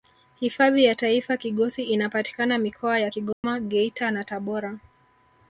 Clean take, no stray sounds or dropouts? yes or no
no